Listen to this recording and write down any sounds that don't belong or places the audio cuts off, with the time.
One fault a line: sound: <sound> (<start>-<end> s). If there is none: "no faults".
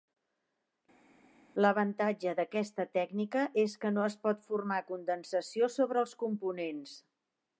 no faults